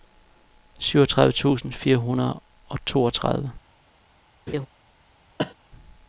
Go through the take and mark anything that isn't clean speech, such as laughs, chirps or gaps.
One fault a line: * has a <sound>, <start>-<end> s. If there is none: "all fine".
* has a laugh, 4.5-4.7 s
* has a cough, 5.4-5.5 s